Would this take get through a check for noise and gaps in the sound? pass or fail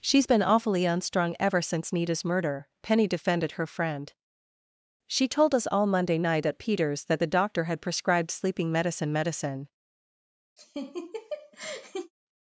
fail